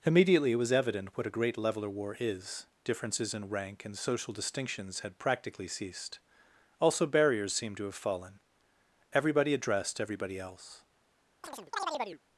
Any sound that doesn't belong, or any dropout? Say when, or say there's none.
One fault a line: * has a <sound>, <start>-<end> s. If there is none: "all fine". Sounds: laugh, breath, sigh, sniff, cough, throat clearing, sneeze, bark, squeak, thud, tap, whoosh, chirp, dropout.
* has a chirp, 11.4-12.2 s